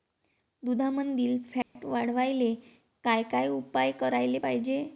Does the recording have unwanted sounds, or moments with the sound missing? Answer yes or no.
yes